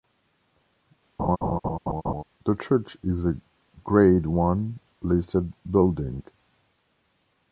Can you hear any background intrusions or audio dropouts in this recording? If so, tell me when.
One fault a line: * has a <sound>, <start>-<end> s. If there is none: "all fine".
* has a laugh, 1.2-2.2 s